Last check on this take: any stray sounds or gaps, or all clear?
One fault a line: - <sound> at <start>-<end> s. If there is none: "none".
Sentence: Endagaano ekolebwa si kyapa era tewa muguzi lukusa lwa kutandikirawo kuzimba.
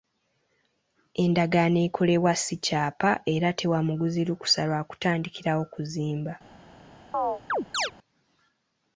- chirp at 7.1-7.9 s